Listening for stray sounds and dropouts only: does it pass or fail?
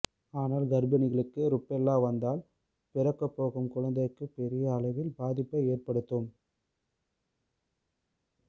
pass